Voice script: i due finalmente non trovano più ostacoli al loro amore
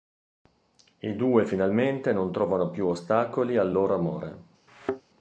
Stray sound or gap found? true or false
true